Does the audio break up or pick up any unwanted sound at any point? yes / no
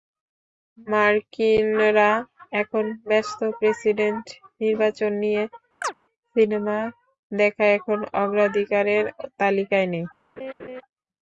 yes